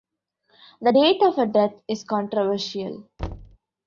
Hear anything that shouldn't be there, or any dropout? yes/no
yes